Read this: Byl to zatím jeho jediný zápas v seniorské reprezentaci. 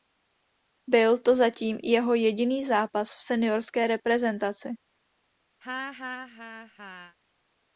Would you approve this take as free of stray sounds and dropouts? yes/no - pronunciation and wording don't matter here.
no